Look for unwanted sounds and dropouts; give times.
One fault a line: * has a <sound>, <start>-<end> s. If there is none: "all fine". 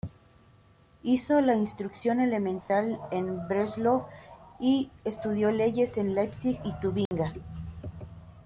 * has a dropout, 2.6-2.7 s
* has a dropout, 7.1-7.1 s